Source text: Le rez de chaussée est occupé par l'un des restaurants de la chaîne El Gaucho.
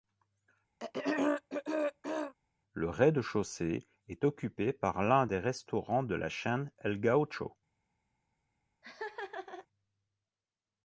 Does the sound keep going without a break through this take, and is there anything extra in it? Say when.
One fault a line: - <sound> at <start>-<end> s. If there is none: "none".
- throat clearing at 0.8-2.3 s
- laugh at 8.8-9.7 s